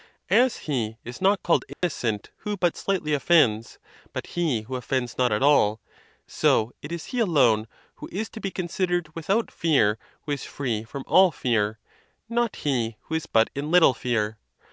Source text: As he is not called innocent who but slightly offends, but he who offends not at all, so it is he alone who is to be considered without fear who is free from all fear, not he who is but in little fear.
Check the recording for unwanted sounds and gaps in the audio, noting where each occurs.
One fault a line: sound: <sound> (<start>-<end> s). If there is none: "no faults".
sound: dropout (1.7-1.8 s)